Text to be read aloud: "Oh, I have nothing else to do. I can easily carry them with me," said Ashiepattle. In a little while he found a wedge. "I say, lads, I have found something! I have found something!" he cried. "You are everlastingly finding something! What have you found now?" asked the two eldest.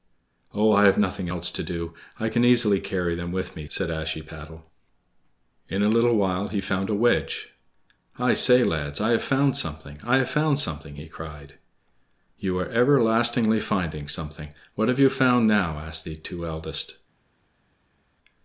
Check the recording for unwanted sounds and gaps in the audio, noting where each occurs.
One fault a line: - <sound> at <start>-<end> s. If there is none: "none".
none